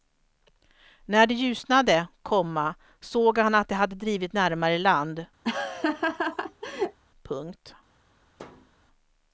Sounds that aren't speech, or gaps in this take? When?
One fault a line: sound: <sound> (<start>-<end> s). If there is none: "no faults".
sound: laugh (5.4-7.0 s)
sound: thud (8.4-8.7 s)